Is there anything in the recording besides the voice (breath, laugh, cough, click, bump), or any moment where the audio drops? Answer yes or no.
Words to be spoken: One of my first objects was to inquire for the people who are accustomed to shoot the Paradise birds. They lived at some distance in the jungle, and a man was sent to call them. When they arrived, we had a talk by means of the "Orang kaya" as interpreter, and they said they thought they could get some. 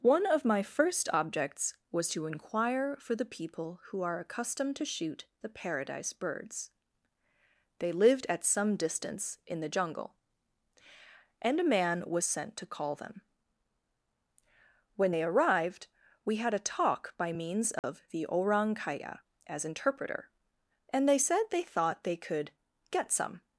yes